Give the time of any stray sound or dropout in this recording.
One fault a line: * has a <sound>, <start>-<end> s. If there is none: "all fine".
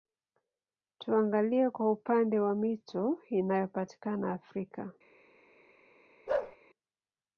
* has a bark, 6.3-6.6 s